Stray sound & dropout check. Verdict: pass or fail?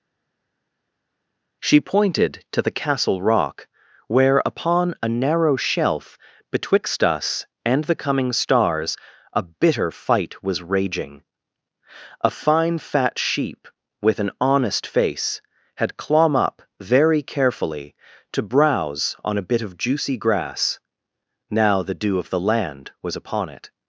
pass